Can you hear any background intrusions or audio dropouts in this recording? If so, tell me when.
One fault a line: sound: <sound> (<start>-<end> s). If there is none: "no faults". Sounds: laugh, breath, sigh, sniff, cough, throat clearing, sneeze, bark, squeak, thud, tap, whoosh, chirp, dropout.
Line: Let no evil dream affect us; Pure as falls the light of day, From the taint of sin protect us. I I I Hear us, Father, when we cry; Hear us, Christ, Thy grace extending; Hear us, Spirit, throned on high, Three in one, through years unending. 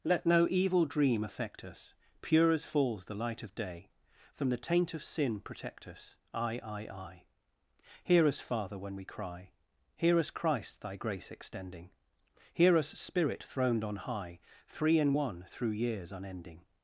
no faults